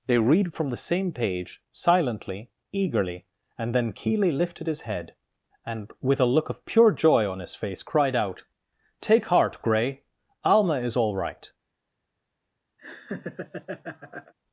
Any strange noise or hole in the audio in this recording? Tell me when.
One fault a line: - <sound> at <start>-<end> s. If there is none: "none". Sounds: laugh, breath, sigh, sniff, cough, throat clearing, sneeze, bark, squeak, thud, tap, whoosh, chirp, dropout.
- laugh at 12.8-14.3 s